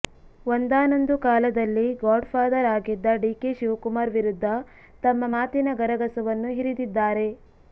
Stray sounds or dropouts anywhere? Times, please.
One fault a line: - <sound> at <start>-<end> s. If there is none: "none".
none